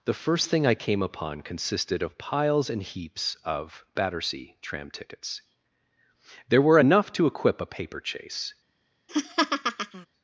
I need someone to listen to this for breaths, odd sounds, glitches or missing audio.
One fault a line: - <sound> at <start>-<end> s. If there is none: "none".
- laugh at 9.1-10.1 s